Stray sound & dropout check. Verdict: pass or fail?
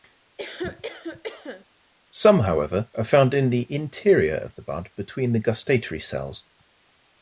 fail